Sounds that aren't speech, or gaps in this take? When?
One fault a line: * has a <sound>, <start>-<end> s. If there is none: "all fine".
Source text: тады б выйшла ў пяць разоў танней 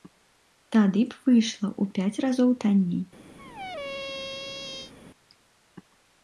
* has a squeak, 3.4-4.9 s